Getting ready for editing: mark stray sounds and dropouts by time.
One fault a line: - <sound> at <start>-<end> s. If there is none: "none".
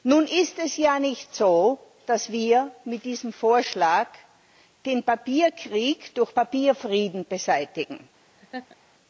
- laugh at 8.4-8.8 s